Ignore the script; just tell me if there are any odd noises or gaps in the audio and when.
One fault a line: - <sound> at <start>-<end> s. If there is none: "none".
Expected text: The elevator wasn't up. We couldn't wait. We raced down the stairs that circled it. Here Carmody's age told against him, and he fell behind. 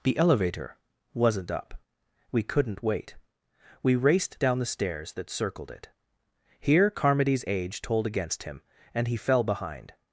none